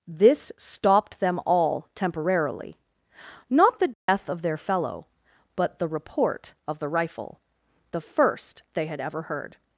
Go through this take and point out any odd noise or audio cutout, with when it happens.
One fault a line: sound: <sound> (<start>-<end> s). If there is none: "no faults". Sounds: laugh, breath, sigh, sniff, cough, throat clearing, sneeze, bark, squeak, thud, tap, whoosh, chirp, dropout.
sound: dropout (3.9-4.1 s)